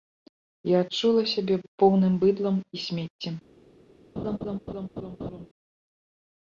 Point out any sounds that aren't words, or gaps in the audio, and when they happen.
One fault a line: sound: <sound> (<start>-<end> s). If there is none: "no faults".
sound: laugh (4.2-5.5 s)